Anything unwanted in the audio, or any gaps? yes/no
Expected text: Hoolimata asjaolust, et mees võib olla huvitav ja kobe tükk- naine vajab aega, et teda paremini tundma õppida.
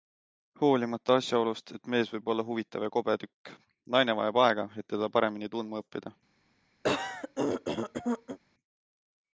yes